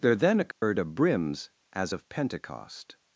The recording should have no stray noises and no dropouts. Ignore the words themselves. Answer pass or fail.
fail